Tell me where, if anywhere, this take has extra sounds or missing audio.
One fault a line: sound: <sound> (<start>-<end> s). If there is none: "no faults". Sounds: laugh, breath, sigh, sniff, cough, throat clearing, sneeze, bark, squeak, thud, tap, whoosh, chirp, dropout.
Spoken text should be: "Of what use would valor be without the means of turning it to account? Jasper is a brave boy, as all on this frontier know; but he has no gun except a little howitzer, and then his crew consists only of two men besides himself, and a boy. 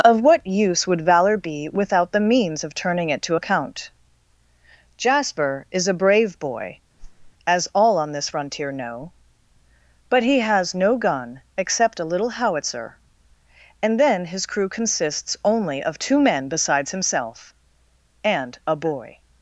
sound: whoosh (7.0-7.3 s)